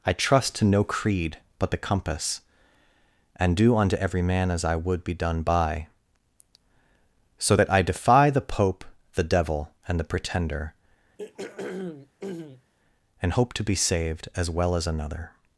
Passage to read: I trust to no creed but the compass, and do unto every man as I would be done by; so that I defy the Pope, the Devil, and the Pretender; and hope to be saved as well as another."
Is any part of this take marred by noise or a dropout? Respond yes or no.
yes